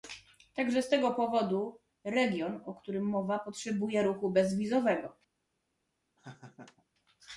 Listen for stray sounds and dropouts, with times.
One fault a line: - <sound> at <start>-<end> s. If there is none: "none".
- laugh at 6.2-6.9 s